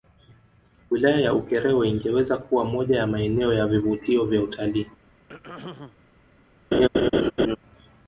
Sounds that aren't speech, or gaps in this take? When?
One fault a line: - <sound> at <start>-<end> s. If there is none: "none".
- throat clearing at 5.3-6.0 s
- laugh at 6.7-7.6 s